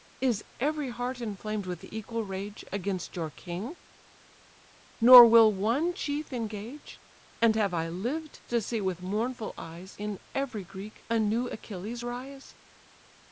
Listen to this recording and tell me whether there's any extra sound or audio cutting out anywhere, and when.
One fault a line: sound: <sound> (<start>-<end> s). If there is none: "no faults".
no faults